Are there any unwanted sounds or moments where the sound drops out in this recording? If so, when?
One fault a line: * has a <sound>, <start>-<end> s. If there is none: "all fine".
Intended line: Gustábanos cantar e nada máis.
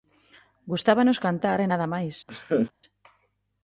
* has a laugh, 2.3-2.7 s